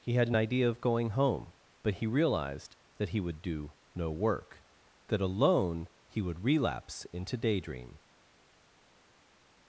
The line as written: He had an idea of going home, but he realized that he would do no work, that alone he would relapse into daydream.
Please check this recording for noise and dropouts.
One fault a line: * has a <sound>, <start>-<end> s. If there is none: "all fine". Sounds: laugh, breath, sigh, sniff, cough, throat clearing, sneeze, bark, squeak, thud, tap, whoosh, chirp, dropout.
all fine